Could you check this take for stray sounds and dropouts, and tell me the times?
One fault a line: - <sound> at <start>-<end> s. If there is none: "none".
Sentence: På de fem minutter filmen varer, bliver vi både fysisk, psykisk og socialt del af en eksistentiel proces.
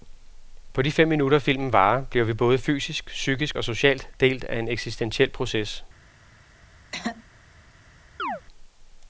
- throat clearing at 6.9-7.2 s
- chirp at 8.2-8.4 s